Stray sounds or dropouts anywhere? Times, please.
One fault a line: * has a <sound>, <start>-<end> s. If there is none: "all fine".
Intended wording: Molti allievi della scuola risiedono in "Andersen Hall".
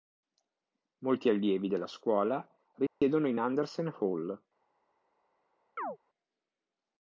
* has a dropout, 2.9-3.0 s
* has a chirp, 5.8-6.0 s